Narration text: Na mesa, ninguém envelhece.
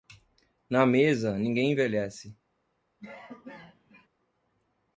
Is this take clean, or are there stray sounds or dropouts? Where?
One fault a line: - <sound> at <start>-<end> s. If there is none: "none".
- cough at 3.0-4.1 s